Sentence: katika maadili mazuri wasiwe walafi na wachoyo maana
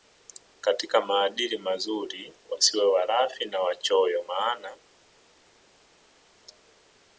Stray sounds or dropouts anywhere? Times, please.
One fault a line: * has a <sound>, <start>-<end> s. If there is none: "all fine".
all fine